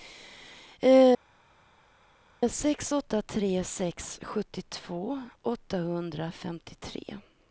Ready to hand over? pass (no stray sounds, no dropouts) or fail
pass